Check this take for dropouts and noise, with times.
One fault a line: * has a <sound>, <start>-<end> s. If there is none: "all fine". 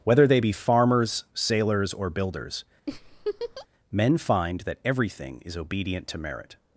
* has a laugh, 2.9-3.7 s